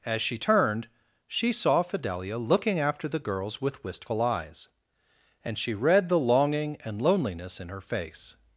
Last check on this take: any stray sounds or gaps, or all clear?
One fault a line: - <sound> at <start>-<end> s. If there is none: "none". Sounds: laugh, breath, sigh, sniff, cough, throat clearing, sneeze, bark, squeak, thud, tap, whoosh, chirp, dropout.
none